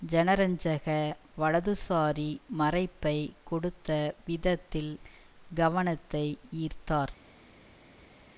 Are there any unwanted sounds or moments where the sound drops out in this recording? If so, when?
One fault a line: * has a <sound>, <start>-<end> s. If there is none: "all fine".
all fine